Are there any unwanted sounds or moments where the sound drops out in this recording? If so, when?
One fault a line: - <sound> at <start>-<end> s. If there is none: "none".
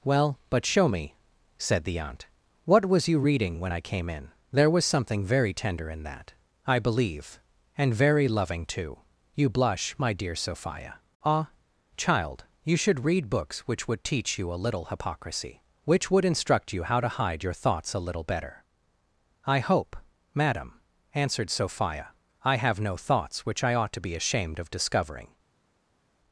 none